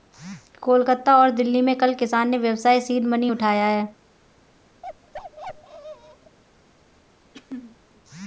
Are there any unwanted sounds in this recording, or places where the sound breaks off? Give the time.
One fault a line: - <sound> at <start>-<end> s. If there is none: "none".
- bark at 4.8-6.4 s
- throat clearing at 7.3-7.8 s